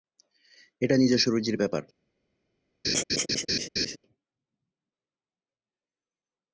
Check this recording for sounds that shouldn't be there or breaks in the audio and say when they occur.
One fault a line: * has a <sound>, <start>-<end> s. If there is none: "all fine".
* has a laugh, 2.8-4.0 s